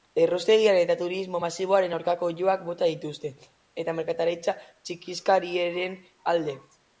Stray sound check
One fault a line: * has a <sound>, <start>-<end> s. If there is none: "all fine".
all fine